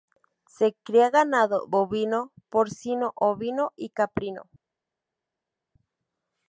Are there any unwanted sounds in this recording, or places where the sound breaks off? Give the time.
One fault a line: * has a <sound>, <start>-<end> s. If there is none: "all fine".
all fine